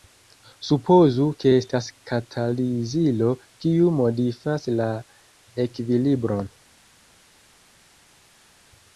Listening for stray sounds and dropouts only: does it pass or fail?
pass